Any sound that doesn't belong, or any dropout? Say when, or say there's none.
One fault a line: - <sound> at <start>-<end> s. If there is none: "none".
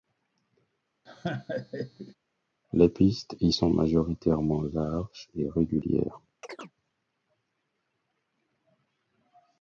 - laugh at 1.1-2.2 s
- chirp at 6.4-6.7 s